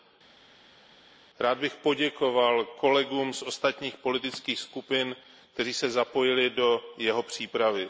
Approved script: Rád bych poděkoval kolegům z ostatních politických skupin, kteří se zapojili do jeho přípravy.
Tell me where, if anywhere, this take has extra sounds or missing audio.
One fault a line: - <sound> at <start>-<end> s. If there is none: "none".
none